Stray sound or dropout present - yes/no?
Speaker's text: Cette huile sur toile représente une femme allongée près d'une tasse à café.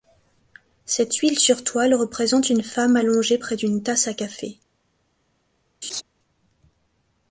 yes